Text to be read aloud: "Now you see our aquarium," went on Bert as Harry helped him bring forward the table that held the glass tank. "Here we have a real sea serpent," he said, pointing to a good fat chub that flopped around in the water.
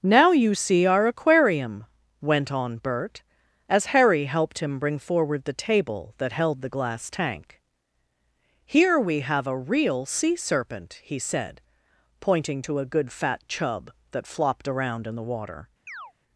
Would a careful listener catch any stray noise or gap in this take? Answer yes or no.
yes